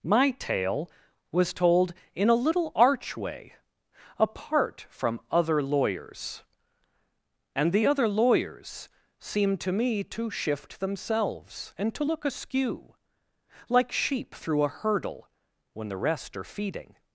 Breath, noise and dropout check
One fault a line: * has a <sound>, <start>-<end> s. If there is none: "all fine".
all fine